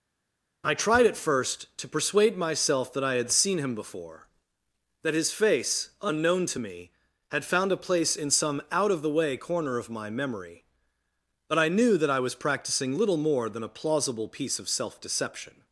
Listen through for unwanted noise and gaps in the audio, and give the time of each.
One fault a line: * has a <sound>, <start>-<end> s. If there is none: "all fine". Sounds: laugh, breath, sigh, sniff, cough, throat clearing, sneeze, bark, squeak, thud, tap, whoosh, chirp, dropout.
all fine